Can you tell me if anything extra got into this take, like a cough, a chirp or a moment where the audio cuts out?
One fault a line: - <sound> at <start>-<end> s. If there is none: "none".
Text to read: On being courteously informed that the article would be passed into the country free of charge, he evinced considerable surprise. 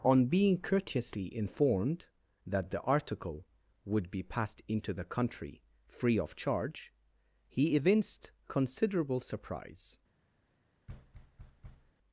- thud at 10.9-11.9 s